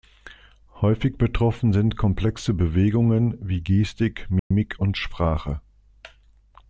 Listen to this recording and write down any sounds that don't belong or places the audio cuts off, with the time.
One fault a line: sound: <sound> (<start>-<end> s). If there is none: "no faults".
sound: dropout (4.4-4.5 s)